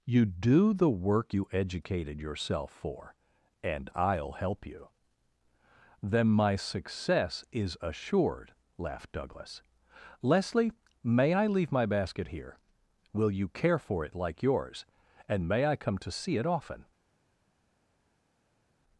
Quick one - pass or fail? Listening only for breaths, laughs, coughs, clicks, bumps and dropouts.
pass